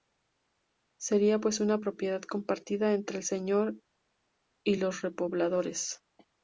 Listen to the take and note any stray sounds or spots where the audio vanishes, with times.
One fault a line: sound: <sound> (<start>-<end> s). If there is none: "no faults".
no faults